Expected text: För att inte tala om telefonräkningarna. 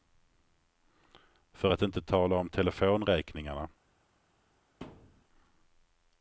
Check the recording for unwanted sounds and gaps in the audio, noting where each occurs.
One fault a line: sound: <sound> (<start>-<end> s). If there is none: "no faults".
sound: thud (4.8-5.2 s)